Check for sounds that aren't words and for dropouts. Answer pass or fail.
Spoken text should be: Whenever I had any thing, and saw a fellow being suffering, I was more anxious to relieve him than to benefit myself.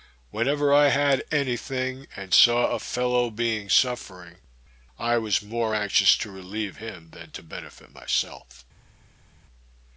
pass